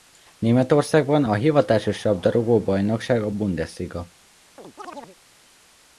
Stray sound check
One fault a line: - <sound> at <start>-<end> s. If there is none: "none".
- chirp at 4.6-5.2 s